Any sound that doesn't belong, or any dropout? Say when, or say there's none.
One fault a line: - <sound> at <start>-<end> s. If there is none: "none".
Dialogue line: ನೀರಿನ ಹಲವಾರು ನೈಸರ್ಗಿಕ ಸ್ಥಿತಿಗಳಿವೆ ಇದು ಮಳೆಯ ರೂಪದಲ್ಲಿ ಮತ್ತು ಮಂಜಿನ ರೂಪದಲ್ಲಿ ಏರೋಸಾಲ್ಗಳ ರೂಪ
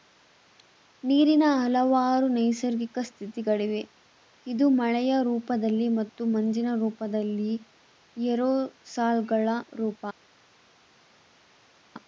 none